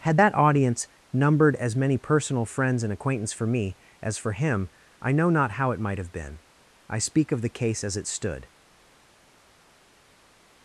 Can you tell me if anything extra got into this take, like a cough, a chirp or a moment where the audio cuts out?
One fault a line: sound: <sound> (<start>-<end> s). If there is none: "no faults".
no faults